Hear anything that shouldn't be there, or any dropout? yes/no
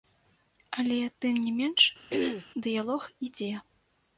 yes